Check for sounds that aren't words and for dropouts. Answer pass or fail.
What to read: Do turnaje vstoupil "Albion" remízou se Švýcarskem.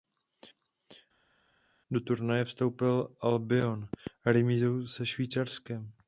pass